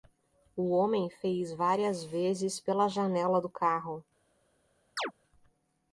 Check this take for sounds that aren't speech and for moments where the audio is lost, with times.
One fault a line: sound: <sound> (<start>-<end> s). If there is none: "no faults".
sound: chirp (5.0-5.1 s)